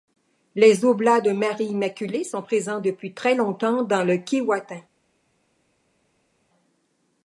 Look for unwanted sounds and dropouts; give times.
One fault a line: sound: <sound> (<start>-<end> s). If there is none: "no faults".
no faults